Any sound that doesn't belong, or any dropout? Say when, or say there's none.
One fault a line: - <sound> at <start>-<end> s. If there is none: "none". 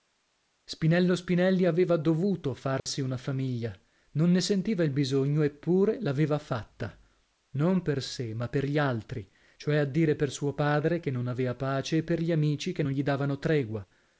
- dropout at 2.8-2.9 s